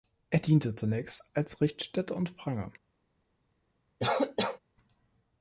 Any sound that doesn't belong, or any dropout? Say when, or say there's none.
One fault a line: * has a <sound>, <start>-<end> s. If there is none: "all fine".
* has a cough, 4.0-4.6 s